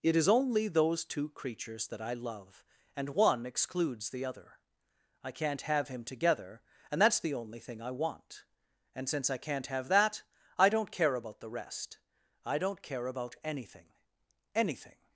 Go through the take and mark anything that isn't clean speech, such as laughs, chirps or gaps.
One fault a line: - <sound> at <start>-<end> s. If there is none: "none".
none